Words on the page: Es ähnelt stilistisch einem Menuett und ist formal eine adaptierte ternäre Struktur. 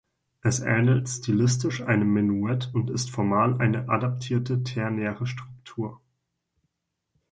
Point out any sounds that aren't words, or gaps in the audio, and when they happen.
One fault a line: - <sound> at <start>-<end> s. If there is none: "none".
none